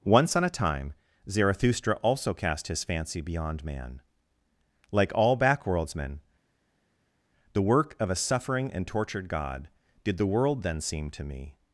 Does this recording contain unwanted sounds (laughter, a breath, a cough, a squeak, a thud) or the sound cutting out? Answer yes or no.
no